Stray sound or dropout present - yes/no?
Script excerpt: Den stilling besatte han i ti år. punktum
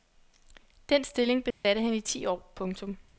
yes